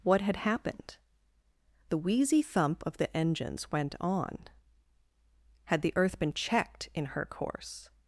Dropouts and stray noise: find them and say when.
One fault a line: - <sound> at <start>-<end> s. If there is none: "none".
none